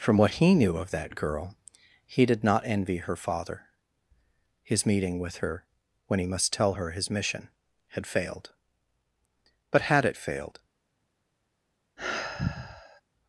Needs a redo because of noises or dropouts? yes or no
yes